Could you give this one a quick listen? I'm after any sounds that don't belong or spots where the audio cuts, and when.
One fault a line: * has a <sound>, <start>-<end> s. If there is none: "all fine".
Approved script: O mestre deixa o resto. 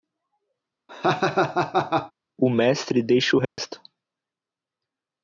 * has a laugh, 0.9-2.1 s
* has a dropout, 3.4-3.6 s